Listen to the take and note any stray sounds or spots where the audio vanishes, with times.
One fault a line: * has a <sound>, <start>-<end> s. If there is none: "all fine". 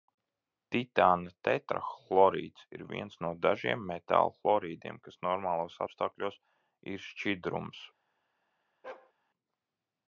* has a bark, 8.8-9.1 s